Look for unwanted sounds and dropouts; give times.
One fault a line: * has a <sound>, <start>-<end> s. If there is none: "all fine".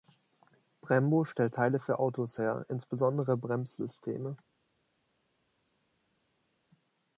all fine